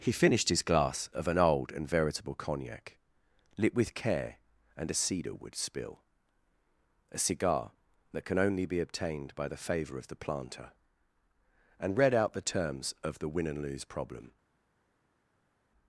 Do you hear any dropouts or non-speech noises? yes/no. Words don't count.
no